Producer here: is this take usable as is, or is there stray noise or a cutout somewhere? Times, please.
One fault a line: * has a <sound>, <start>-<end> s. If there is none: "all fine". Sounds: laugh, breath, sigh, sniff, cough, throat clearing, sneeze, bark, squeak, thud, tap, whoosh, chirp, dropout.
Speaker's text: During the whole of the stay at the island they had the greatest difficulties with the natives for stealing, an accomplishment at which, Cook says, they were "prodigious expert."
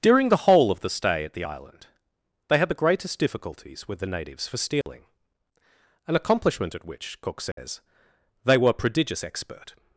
* has a dropout, 4.8-4.9 s
* has a dropout, 7.5-7.6 s